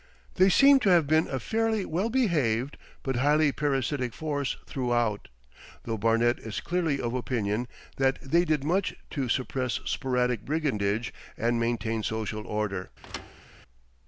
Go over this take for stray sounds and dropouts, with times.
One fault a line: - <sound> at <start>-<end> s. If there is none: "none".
- thud at 13.0-13.5 s